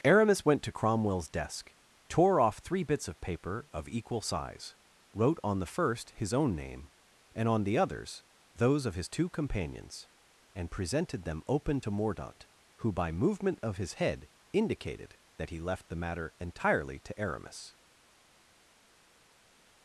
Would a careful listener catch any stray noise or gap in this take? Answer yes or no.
no